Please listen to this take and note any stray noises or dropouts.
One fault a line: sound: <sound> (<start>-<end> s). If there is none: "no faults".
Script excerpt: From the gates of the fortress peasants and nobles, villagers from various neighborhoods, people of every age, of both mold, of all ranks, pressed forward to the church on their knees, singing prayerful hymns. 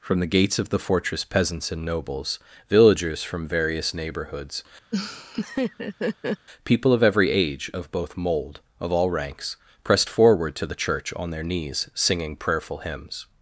sound: laugh (4.9-6.5 s)